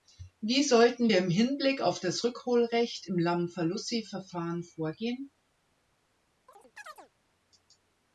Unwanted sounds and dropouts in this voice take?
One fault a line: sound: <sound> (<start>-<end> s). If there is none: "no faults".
sound: chirp (6.5-7.1 s)